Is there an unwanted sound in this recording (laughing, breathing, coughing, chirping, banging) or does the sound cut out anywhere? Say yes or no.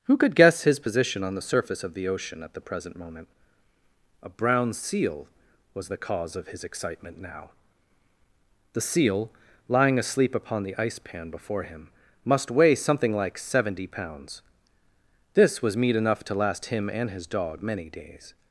no